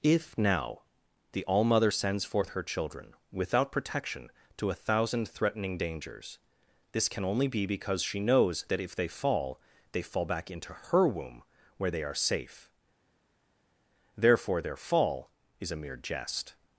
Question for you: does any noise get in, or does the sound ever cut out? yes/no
no